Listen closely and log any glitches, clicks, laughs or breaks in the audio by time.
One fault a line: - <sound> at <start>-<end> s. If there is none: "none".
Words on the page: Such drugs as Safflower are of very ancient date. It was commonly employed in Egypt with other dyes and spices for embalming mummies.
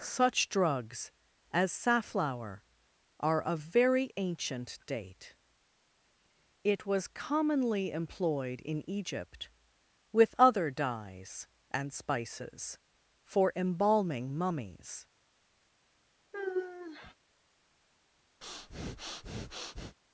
- sigh at 16.3-17.1 s
- breath at 18.4-20.0 s